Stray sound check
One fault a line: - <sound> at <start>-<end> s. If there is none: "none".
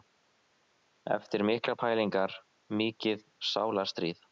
none